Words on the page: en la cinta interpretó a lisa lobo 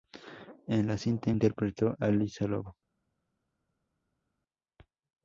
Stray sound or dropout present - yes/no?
no